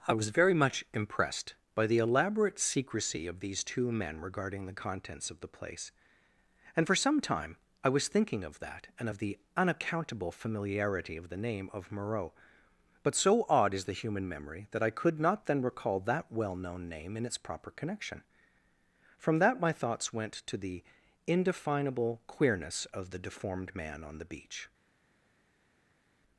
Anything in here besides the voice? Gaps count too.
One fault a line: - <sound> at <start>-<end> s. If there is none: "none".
none